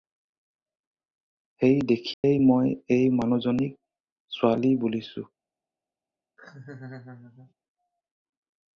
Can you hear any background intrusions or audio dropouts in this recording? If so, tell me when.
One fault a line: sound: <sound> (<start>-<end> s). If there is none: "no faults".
sound: dropout (2.1-2.2 s)
sound: laugh (6.4-7.5 s)